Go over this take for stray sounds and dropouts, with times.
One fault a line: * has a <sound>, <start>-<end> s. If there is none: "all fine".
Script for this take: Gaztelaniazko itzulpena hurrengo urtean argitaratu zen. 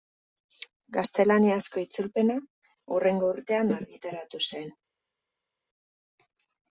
all fine